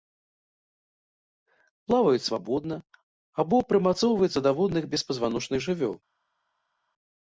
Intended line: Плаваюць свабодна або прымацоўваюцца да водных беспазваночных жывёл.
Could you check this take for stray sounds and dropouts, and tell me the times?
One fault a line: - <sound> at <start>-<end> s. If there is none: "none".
none